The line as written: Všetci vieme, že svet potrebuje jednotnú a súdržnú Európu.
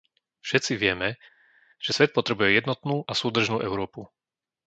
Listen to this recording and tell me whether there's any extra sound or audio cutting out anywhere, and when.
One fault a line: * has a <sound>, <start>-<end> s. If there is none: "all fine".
all fine